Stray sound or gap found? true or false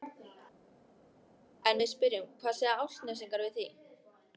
false